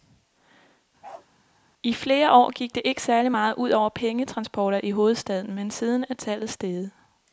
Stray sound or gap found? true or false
true